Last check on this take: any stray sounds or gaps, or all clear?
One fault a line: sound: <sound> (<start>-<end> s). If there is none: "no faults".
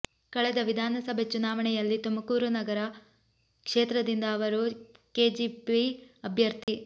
sound: dropout (6.6-6.7 s)